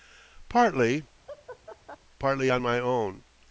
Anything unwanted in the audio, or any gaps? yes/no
yes